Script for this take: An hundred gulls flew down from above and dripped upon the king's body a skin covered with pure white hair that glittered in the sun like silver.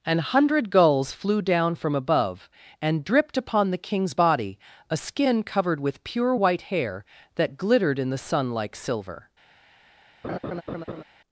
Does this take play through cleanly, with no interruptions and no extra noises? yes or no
no